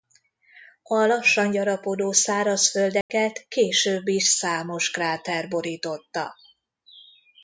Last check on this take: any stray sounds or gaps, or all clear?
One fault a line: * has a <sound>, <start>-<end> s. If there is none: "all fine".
* has a dropout, 3.0-3.1 s